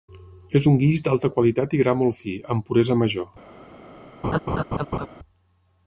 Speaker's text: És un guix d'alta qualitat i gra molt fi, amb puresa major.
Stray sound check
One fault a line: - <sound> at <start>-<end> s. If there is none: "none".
- laugh at 4.2-5.1 s